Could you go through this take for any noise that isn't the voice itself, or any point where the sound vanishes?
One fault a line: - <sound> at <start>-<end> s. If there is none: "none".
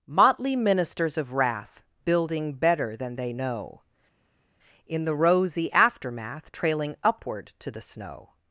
none